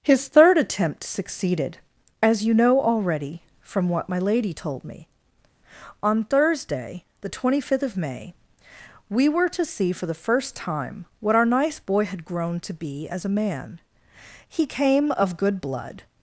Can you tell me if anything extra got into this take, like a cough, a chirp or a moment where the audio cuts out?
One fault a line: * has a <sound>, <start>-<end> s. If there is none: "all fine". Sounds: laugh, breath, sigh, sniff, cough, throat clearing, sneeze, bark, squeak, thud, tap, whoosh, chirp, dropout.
all fine